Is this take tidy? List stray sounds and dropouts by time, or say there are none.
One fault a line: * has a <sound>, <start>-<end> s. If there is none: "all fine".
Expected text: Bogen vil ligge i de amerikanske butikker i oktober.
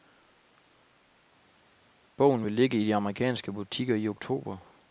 all fine